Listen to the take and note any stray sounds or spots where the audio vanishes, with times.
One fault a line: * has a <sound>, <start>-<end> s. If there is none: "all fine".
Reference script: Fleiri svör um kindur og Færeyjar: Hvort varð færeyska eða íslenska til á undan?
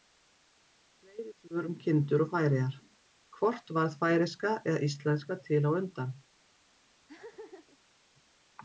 * has a laugh, 7.1-7.8 s